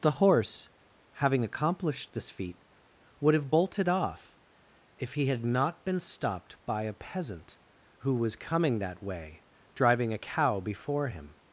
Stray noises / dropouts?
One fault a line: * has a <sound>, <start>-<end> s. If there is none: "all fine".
all fine